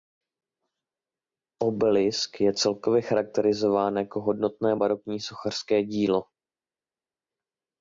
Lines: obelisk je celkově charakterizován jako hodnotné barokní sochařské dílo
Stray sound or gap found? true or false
false